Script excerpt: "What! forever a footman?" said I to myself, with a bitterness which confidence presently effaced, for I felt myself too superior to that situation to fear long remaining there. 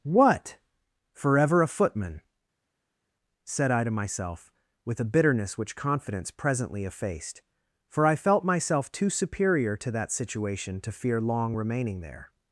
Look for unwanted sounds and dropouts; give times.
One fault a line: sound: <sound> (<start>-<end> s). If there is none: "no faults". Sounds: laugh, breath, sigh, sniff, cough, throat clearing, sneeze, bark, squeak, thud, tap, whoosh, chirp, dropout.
no faults